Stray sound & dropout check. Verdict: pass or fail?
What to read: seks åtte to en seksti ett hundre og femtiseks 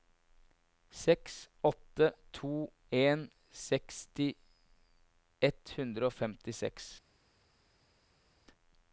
pass